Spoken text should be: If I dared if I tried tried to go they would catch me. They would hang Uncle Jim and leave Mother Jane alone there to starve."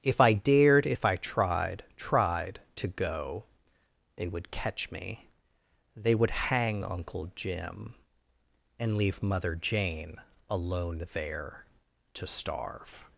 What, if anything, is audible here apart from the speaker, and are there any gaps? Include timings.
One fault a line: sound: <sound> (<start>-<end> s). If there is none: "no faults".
no faults